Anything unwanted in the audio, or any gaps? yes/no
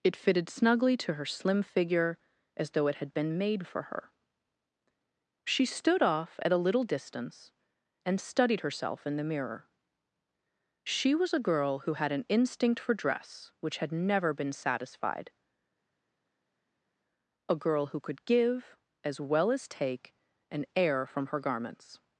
no